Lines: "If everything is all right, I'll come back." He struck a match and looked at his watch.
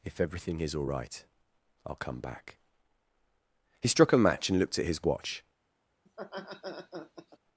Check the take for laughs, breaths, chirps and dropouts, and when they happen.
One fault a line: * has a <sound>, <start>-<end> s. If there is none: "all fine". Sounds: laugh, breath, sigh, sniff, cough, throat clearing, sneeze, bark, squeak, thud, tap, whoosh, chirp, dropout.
* has a laugh, 6.1-7.4 s